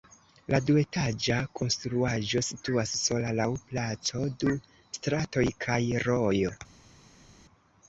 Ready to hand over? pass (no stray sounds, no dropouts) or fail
pass